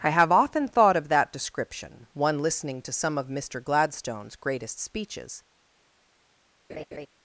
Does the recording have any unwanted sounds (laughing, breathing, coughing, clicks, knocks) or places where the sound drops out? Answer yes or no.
yes